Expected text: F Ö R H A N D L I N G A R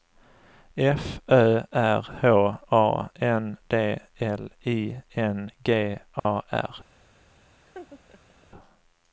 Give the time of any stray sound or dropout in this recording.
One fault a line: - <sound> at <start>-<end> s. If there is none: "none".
- dropout at 6.2-6.2 s
- laugh at 7.6-8.5 s